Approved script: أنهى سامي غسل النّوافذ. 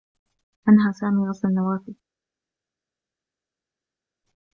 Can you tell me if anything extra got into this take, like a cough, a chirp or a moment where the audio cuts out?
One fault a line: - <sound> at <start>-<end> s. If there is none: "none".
none